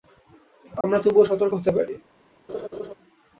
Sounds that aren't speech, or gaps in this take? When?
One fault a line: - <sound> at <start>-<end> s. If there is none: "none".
- dropout at 0.8-0.8 s
- laugh at 2.5-2.9 s